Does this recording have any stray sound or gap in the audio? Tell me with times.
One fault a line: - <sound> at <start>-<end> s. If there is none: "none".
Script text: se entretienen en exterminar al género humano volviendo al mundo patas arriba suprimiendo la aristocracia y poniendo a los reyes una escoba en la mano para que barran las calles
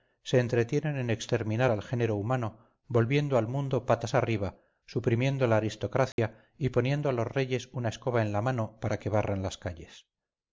- dropout at 6.1-6.2 s